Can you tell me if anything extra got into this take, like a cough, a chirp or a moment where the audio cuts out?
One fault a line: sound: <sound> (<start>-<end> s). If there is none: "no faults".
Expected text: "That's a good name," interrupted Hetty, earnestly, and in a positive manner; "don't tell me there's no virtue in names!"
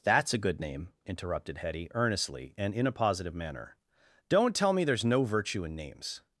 no faults